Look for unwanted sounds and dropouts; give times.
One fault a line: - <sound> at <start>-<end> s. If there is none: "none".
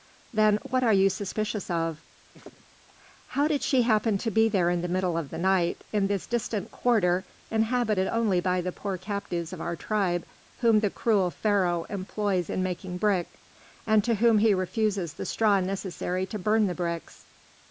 - laugh at 2.3-2.9 s